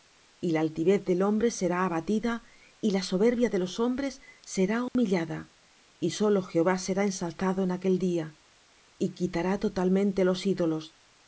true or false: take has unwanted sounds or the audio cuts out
true